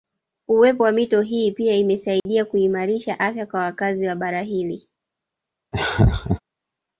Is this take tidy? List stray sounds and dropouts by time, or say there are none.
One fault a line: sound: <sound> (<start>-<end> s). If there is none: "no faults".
sound: dropout (2.2-2.3 s)
sound: laugh (5.7-6.4 s)